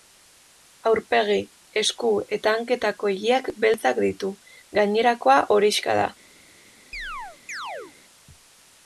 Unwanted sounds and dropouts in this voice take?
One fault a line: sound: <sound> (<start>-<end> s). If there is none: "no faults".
sound: chirp (6.9-7.9 s)